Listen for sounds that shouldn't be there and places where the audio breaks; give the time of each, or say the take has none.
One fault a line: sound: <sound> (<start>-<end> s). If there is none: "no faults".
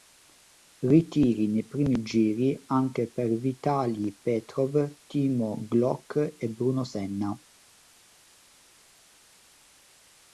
no faults